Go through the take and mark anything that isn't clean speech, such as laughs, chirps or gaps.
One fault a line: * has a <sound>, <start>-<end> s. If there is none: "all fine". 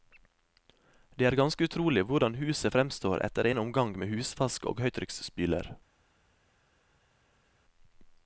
all fine